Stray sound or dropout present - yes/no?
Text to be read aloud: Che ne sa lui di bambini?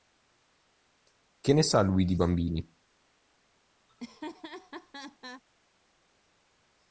yes